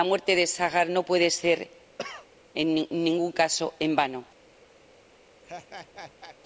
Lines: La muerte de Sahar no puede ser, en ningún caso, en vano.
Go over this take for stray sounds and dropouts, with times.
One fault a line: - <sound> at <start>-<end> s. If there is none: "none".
- cough at 2.0-2.3 s
- laugh at 5.4-6.4 s